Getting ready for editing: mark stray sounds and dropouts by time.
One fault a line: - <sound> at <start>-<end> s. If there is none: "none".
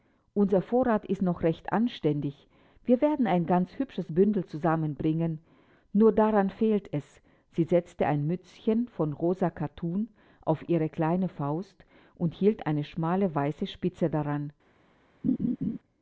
- laugh at 15.2-15.8 s